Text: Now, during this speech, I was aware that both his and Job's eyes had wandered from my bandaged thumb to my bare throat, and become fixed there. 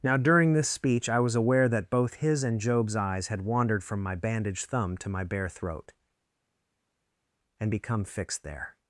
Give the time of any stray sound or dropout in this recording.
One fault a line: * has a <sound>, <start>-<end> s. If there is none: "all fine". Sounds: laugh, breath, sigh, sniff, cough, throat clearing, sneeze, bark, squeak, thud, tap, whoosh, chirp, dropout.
all fine